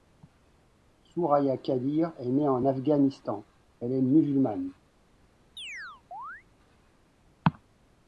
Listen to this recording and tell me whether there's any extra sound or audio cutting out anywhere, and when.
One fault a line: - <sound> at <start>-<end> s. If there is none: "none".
- chirp at 5.6-6.4 s